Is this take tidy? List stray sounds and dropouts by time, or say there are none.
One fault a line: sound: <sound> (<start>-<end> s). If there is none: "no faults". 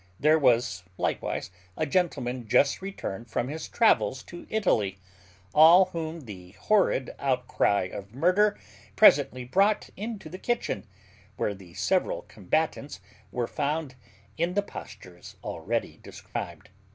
sound: dropout (16.3-16.4 s)